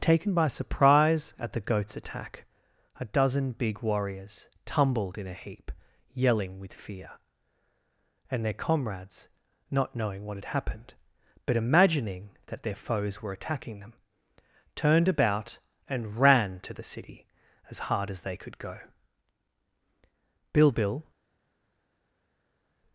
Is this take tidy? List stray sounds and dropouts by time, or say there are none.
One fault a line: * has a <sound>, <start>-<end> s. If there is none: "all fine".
all fine